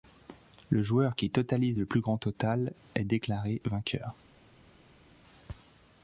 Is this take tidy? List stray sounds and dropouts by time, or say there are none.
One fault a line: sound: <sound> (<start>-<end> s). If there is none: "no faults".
no faults